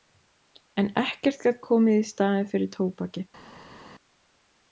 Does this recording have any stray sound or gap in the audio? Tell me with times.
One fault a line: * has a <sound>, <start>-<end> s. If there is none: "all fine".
all fine